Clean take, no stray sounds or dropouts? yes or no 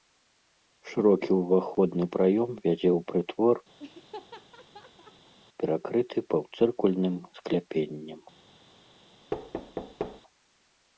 no